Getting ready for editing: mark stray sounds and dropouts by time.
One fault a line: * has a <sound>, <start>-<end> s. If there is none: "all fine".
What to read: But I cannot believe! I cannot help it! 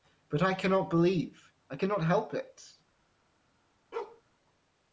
* has a bark, 3.9-4.2 s